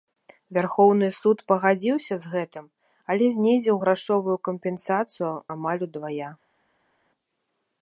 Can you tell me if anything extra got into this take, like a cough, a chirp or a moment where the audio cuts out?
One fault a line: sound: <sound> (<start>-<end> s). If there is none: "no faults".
no faults